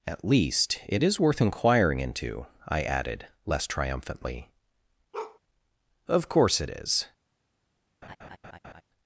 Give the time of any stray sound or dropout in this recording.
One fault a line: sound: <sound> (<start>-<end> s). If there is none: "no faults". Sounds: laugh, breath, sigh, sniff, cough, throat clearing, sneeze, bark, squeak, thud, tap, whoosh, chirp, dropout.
sound: bark (5.1-5.4 s)
sound: laugh (8.0-8.8 s)